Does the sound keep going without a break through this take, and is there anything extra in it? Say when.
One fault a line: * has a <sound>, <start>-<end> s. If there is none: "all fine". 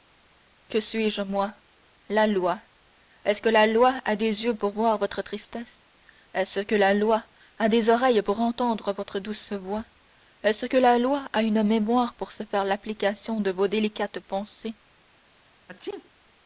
* has a sneeze, 15.7-16.1 s